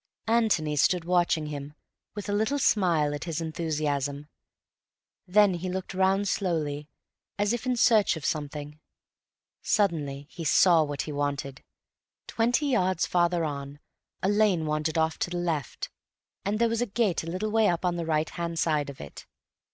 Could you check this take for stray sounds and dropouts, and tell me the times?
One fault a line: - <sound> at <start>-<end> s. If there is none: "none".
none